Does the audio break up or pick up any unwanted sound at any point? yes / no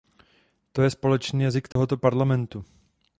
yes